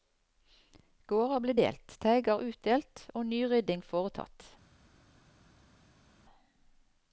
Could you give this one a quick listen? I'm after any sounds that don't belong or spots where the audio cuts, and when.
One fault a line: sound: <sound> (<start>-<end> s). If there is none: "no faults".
no faults